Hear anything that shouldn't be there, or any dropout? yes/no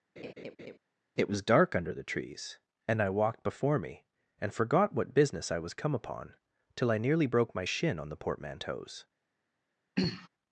yes